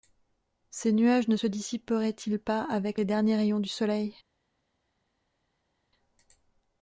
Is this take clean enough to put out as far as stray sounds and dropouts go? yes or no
yes